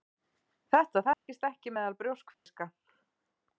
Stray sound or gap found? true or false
true